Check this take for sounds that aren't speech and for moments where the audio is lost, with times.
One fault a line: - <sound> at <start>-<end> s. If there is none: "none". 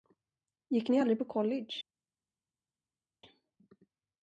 none